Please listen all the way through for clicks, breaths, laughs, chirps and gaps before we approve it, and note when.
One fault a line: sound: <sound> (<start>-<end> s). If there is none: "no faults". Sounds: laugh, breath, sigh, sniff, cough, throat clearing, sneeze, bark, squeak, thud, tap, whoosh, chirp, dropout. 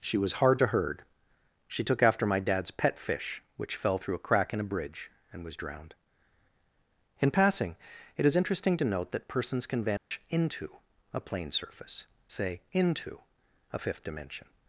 sound: dropout (10.0-10.1 s)